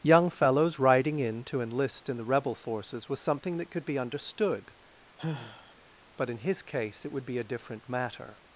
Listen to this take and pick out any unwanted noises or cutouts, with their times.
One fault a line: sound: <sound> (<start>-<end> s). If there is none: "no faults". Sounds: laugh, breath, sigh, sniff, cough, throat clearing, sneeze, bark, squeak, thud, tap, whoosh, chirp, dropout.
sound: sigh (5.2-5.7 s)